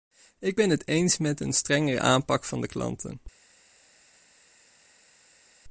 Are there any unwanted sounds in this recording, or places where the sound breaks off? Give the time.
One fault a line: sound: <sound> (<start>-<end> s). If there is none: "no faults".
no faults